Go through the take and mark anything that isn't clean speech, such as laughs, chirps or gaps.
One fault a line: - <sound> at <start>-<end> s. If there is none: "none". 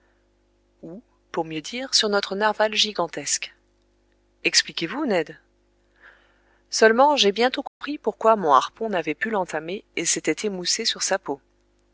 - dropout at 7.7-7.8 s